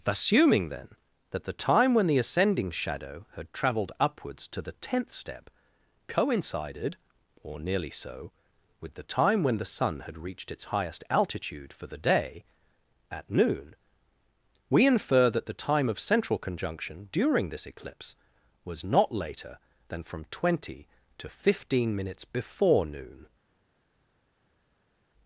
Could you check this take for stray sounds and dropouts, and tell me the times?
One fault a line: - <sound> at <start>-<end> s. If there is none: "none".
none